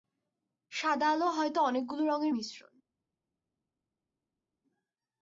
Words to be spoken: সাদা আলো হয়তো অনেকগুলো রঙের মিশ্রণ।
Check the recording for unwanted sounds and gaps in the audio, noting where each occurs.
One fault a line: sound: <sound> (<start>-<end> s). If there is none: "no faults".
no faults